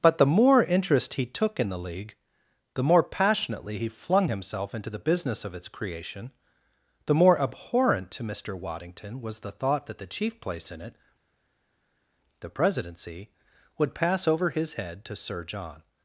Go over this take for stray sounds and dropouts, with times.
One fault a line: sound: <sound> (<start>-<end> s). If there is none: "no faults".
no faults